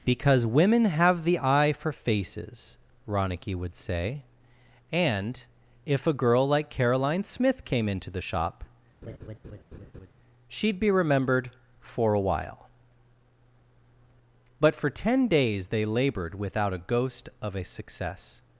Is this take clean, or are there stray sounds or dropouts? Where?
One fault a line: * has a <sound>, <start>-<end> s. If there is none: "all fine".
* has a laugh, 9.0-10.1 s